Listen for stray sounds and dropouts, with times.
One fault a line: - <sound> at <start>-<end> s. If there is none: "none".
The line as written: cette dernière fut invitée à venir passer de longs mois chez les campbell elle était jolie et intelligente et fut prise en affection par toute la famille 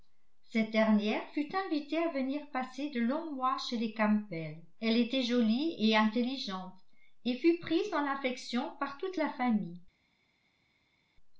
none